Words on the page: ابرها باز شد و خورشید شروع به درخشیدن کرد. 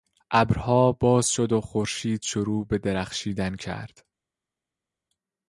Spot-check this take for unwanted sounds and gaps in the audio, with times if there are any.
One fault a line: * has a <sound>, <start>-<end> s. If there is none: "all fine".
all fine